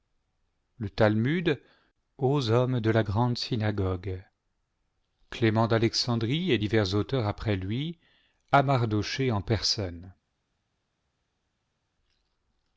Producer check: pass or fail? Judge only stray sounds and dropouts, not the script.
pass